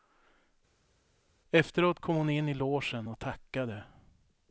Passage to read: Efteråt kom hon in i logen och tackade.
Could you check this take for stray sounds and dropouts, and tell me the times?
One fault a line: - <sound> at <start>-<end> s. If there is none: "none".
none